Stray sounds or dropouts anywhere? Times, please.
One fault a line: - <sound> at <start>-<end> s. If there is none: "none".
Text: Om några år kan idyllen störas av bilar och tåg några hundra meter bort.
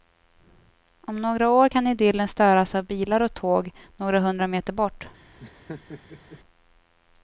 - laugh at 5.4-6.4 s